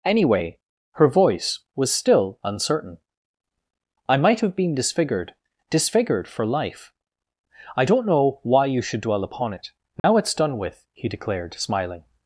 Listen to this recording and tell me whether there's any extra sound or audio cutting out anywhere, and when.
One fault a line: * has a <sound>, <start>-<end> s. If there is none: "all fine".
* has a dropout, 10.0-10.0 s